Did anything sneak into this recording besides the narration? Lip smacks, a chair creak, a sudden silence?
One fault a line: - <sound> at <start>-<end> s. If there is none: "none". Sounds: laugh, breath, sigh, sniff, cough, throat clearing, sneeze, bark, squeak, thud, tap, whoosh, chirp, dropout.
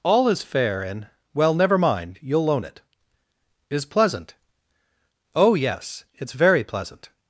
none